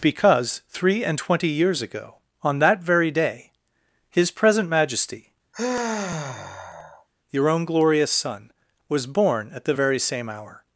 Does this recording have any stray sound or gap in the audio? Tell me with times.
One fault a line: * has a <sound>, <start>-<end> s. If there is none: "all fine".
* has a sigh, 5.5-7.1 s